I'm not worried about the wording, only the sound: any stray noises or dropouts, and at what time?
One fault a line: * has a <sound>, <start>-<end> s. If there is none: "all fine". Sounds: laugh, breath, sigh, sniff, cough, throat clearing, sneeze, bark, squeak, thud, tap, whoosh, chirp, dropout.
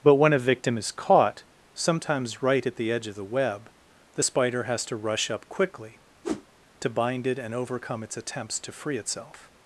* has a whoosh, 6.2-6.5 s